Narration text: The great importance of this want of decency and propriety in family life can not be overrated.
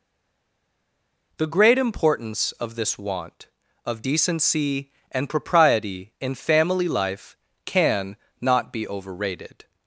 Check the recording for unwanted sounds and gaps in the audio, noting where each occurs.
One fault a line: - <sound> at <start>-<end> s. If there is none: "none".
none